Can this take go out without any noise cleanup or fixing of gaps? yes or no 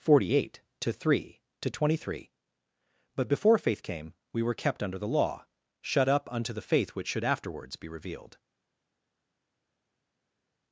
yes